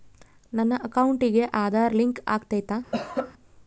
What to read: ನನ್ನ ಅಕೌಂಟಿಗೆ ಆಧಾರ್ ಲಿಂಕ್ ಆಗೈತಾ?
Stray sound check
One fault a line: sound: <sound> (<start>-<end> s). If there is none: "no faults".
sound: cough (2.9-3.3 s)